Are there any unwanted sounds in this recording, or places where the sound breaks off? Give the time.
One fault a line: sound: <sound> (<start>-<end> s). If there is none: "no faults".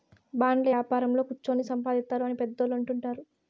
no faults